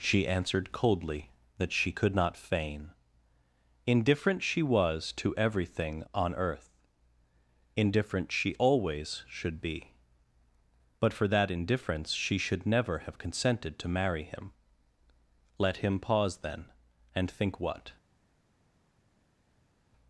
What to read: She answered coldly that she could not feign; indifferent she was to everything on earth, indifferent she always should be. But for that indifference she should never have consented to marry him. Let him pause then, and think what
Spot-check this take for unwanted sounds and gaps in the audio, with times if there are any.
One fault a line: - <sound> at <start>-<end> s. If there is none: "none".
none